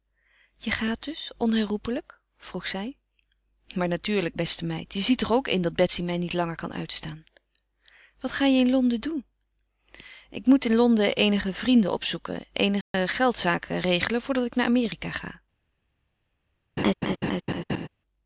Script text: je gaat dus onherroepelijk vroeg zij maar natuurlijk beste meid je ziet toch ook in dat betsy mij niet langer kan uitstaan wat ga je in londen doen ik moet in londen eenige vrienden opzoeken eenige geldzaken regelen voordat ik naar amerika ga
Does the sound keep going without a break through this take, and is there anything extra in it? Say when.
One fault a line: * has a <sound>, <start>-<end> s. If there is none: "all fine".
* has a dropout, 12.8-12.9 s
* has a laugh, 16.8-17.9 s